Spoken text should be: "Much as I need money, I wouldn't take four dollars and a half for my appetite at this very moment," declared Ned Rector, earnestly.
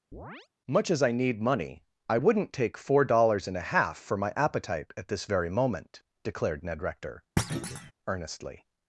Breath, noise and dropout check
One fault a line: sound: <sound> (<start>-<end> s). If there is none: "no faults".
sound: chirp (0.1-0.5 s)
sound: thud (7.4-7.9 s)